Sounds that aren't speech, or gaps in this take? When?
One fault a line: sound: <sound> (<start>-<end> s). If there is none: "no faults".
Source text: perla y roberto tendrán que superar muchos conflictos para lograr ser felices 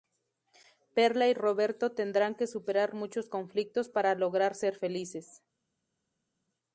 no faults